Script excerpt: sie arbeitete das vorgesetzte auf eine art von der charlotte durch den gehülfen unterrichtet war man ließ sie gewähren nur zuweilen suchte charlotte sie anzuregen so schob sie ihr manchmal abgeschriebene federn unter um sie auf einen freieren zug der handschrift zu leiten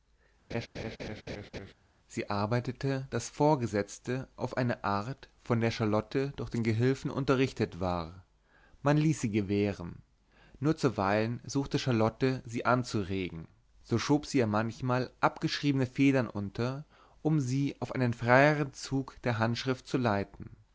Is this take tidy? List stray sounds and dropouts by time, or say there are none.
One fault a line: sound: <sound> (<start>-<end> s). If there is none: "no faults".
sound: laugh (0.5-1.7 s)